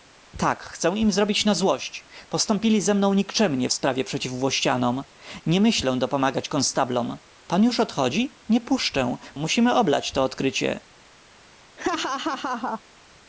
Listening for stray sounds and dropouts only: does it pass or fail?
fail